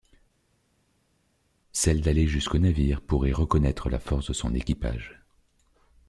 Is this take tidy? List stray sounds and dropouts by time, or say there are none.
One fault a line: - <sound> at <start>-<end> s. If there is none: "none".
none